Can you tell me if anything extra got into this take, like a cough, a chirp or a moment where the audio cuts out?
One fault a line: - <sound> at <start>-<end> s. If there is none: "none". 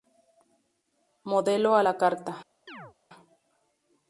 - chirp at 2.7-3.0 s